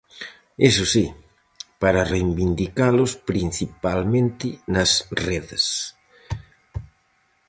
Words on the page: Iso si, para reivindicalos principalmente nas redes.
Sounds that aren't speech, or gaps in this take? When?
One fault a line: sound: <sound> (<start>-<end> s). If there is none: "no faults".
no faults